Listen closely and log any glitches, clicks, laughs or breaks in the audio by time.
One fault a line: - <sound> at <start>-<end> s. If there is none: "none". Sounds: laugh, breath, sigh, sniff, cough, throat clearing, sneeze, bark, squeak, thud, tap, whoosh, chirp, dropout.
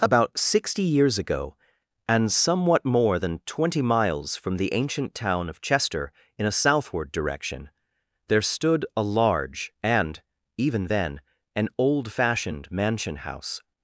none